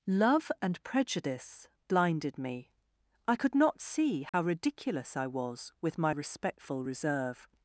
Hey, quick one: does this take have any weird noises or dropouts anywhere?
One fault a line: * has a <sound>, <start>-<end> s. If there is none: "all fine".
* has a dropout, 4.3-4.3 s